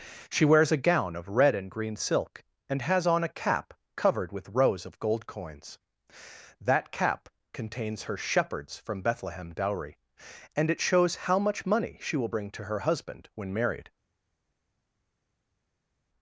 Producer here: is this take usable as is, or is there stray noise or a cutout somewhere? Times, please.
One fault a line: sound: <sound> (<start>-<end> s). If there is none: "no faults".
no faults